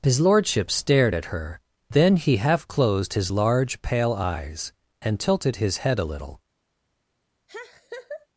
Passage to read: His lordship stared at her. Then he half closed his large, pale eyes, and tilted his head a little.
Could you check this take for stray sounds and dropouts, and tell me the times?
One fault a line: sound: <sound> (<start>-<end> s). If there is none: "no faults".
sound: laugh (7.5-8.3 s)